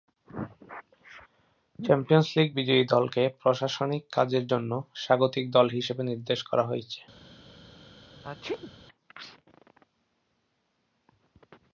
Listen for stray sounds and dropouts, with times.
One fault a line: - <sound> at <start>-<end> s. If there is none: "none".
- sneeze at 8.2-8.7 s